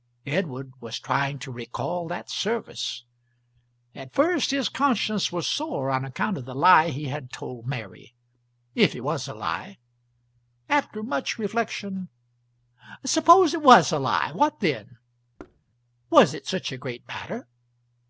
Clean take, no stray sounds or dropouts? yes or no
no